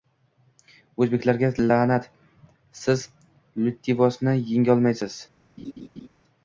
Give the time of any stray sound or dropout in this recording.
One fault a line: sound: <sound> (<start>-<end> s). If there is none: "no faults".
sound: laugh (5.6-6.1 s)